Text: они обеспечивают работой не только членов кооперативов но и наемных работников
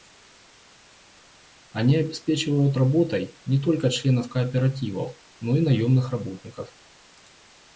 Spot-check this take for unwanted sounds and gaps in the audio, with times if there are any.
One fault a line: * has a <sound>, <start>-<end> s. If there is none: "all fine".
all fine